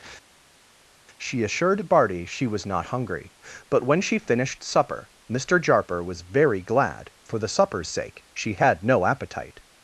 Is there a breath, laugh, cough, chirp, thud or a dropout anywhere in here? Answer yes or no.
no